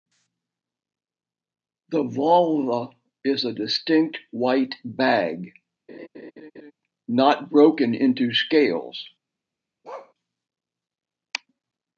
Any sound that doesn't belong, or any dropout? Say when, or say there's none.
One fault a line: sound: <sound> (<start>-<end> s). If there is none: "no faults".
sound: laugh (5.9-6.7 s)
sound: bark (9.8-10.1 s)